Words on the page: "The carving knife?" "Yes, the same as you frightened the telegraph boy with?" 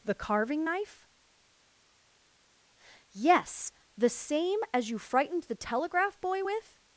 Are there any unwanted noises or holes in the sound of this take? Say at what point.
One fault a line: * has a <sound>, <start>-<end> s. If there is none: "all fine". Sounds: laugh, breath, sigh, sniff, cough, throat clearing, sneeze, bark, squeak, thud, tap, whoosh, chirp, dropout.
all fine